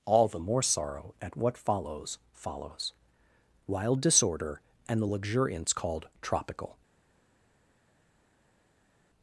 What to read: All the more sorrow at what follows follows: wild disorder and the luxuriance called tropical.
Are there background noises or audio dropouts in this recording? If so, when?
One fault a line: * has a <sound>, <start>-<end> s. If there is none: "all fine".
all fine